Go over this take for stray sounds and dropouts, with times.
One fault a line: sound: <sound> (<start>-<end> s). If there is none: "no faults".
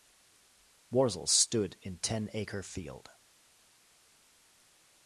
no faults